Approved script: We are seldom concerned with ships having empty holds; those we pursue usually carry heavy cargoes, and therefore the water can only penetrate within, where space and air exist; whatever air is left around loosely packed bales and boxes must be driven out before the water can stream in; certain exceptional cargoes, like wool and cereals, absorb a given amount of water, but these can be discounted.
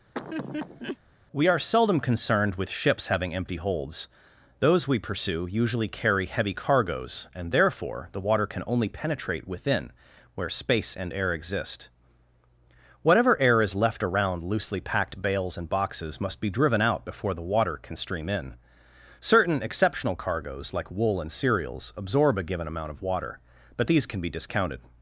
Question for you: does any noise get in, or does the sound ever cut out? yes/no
yes